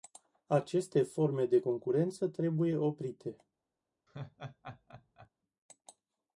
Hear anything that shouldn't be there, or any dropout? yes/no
yes